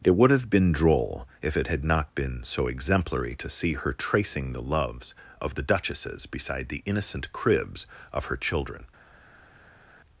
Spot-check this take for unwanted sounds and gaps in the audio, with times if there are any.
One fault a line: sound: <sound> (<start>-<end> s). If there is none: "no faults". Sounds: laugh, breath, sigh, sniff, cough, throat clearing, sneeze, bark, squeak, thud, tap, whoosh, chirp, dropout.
no faults